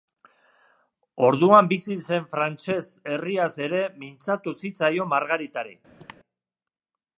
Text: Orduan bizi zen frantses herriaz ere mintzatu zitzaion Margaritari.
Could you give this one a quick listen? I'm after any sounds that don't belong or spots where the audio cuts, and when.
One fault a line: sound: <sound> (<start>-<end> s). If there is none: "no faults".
sound: cough (6.0-6.2 s)